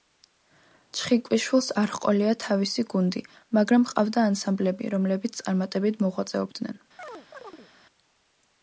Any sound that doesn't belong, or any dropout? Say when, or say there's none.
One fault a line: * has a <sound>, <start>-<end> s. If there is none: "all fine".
* has a chirp, 7.0-7.7 s